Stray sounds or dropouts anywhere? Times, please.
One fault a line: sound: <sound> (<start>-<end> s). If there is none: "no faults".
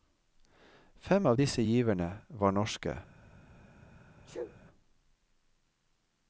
sound: sneeze (4.2-4.6 s)